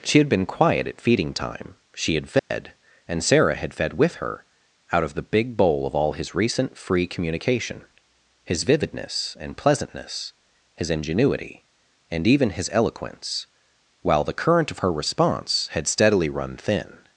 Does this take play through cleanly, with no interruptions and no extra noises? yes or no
no